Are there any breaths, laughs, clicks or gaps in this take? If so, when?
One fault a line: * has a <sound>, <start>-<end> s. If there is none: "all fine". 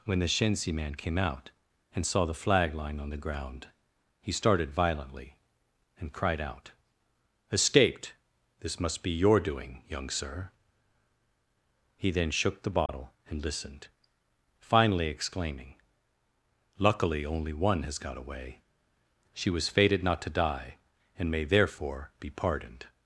* has a dropout, 12.9-12.9 s